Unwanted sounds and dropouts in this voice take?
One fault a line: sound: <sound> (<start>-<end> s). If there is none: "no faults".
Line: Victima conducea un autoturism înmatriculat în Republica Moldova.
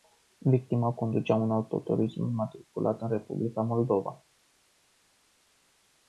no faults